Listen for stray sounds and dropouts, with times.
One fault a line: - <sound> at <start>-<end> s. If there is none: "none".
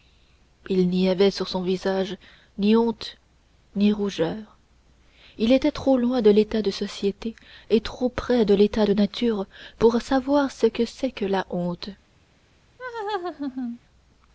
- laugh at 12.8-13.8 s